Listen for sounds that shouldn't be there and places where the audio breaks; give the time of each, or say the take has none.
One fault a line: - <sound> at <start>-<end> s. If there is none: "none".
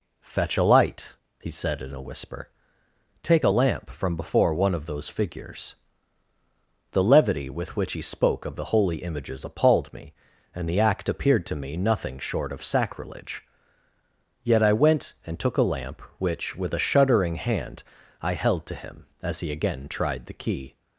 none